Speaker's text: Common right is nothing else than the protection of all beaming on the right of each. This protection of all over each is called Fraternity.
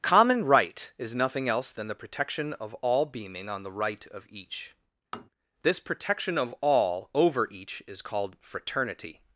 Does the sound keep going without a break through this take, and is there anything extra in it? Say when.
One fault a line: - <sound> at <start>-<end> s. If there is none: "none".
- tap at 5.1-5.3 s